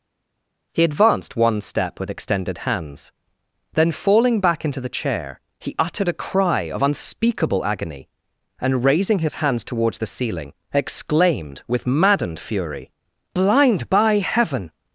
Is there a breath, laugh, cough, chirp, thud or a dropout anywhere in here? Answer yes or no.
no